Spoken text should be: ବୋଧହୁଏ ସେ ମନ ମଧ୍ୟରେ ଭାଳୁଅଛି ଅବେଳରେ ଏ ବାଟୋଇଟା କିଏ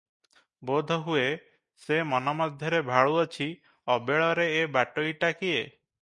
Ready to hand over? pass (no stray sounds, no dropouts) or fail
pass